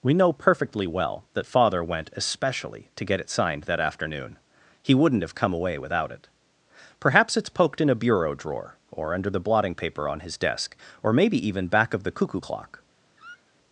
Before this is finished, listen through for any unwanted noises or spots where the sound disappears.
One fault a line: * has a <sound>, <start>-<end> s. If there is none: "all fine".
* has a squeak, 13.2-13.5 s